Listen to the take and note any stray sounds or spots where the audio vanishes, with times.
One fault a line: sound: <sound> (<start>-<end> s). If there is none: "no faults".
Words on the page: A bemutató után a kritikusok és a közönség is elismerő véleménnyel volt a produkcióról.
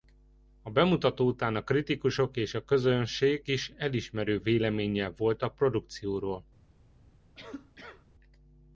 sound: cough (7.4-8.1 s)